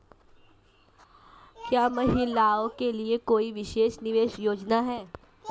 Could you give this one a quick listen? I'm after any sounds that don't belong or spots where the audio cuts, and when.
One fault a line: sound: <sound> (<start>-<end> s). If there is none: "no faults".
no faults